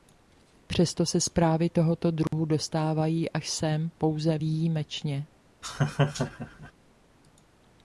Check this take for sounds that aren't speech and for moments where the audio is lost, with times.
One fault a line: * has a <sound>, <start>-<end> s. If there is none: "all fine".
* has a dropout, 2.3-2.3 s
* has a laugh, 5.6-6.7 s